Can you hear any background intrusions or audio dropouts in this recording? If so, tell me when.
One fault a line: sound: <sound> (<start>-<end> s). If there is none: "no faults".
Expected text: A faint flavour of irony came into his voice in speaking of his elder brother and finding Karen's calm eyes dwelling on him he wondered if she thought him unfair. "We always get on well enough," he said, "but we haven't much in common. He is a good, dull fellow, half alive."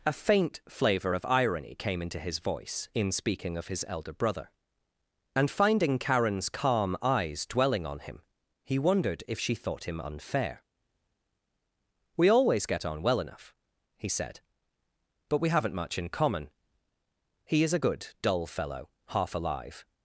no faults